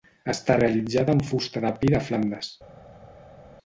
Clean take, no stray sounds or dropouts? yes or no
yes